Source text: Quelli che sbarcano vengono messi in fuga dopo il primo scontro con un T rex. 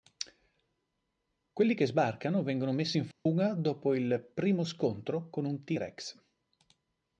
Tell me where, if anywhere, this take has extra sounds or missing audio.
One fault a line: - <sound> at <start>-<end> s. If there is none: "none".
- dropout at 3.1-3.3 s